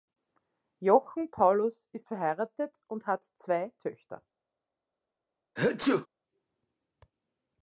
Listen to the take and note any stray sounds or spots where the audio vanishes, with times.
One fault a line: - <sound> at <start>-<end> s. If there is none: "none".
- sneeze at 5.6-6.1 s